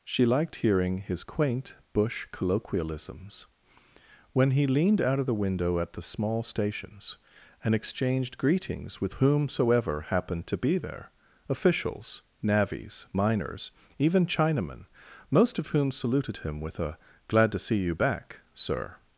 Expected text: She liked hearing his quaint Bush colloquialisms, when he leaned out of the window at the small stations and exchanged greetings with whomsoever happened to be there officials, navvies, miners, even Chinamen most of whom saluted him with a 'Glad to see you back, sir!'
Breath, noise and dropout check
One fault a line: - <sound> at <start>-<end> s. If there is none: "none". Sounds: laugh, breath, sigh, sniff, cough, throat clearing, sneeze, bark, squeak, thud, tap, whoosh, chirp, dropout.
none